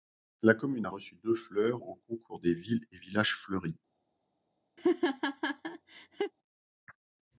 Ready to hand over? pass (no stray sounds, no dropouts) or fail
fail